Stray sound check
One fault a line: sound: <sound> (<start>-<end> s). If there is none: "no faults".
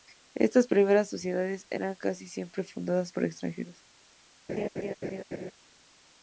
sound: laugh (4.5-5.5 s)